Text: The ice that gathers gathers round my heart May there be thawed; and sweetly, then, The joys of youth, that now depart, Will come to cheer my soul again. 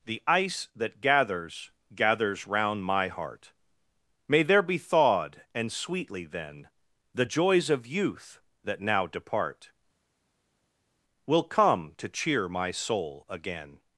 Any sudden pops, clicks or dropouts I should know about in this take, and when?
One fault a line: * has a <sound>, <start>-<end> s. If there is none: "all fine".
all fine